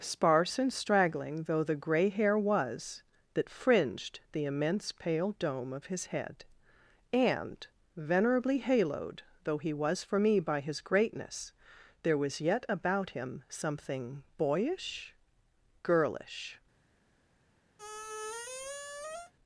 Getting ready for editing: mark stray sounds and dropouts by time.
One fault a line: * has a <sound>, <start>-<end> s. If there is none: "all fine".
* has a squeak, 17.8-19.3 s